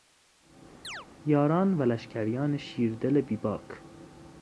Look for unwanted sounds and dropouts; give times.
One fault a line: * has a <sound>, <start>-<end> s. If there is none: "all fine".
* has a chirp, 0.8-1.1 s